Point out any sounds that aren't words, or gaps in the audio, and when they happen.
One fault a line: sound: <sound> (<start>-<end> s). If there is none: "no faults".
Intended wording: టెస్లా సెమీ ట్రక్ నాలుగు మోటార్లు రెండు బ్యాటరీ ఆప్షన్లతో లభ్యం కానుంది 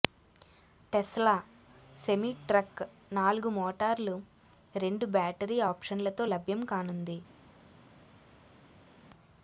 no faults